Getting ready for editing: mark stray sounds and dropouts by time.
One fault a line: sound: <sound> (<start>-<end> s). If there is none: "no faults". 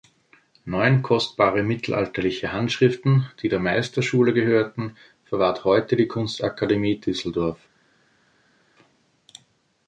no faults